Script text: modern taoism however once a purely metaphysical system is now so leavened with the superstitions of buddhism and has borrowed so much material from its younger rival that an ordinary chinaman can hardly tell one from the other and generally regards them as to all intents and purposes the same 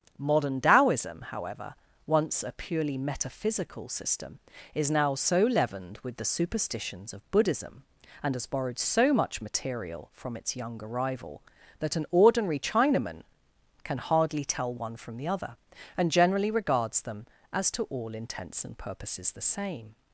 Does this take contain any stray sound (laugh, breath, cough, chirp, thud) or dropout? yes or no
no